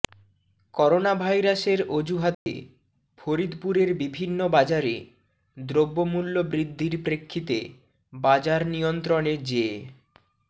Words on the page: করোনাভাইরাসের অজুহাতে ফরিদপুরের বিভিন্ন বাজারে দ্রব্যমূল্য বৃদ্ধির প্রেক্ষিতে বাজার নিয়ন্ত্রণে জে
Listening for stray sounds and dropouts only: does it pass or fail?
fail